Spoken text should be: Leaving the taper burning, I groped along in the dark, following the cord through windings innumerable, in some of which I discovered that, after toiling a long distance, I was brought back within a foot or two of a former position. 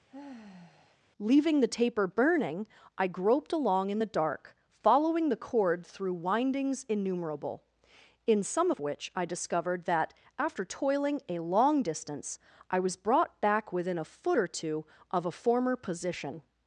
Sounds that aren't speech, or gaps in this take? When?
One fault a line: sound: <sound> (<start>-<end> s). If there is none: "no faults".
sound: sigh (0.1-1.0 s)